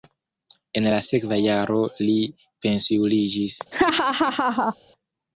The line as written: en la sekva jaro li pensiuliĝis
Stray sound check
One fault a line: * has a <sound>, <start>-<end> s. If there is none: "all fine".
* has a laugh, 3.7-4.8 s